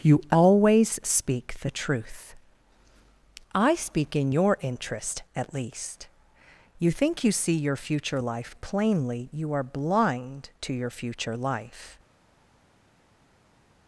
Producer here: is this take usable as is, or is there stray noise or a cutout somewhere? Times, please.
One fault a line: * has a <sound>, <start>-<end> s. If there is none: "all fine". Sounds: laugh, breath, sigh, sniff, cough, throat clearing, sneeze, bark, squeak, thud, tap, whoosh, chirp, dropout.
all fine